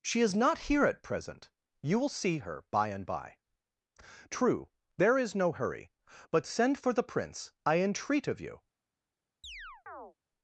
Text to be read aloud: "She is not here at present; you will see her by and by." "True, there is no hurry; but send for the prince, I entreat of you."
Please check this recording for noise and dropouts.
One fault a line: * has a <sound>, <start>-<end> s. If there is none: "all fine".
* has a chirp, 9.4-10.1 s